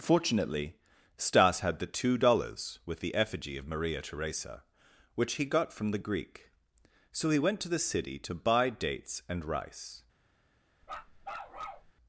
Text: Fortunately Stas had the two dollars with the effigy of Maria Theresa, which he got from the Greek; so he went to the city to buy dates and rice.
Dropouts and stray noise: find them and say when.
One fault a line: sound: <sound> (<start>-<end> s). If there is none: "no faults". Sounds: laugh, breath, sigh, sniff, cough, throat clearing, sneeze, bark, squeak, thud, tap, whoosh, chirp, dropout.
sound: bark (10.8-11.9 s)